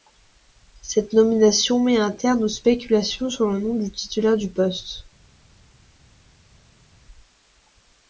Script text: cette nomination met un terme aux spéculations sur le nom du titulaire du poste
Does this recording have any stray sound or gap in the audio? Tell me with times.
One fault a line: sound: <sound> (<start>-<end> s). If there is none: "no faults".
no faults